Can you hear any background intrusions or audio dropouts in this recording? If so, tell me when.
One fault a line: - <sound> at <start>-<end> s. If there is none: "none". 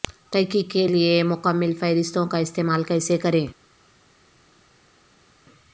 none